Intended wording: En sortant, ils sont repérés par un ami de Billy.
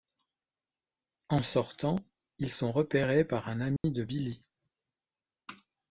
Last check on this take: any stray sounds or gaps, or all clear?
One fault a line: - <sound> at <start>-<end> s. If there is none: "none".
- dropout at 3.8-3.8 s